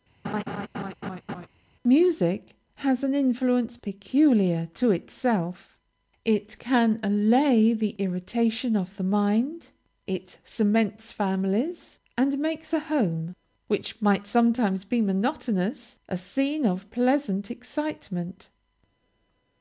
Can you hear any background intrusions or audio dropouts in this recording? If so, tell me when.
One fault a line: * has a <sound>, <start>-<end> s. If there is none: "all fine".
* has a laugh, 0.2-1.5 s